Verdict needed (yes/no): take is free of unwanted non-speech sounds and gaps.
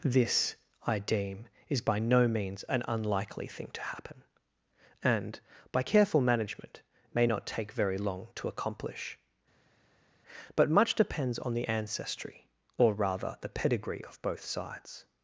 yes